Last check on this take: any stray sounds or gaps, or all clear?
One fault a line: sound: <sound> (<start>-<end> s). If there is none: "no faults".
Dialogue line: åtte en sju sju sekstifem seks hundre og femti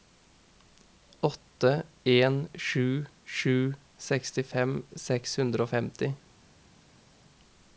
no faults